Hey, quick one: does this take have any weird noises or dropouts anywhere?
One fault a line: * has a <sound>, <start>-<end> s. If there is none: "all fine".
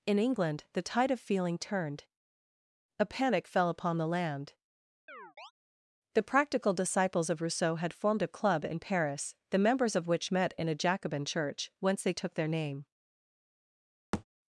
* has a chirp, 5.1-5.5 s
* has a thud, 14.1-14.2 s